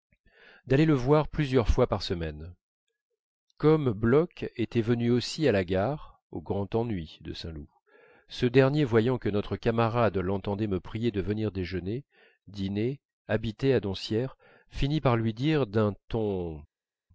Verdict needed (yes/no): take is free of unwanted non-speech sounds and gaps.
yes